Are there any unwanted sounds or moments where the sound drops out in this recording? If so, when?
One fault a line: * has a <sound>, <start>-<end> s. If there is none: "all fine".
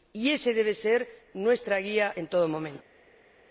all fine